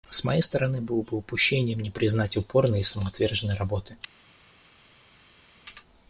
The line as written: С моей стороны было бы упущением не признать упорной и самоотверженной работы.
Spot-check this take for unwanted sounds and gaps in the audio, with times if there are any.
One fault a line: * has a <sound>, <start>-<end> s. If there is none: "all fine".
all fine